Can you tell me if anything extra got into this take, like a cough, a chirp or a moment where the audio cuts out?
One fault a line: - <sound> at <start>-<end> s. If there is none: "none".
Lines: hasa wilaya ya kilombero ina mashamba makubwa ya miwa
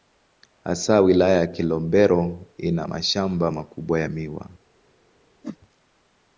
- whoosh at 5.4-5.6 s